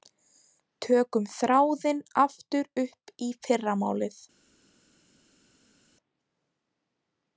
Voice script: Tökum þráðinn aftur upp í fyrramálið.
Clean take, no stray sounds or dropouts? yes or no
yes